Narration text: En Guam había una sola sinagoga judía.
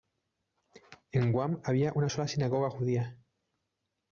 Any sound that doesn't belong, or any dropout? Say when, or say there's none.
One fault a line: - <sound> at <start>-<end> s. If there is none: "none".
none